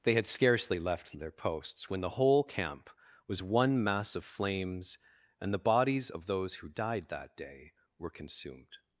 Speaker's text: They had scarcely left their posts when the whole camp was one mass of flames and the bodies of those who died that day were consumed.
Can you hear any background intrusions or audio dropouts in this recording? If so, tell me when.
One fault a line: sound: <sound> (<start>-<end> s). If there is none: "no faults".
no faults